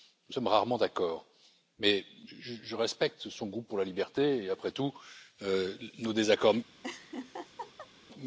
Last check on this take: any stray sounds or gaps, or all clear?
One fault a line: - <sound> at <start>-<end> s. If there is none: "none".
- laugh at 6.8-7.9 s